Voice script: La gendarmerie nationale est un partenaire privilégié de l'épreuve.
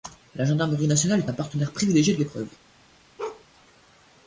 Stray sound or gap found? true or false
true